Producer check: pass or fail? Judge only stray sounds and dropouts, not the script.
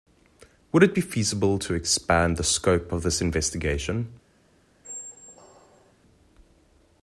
fail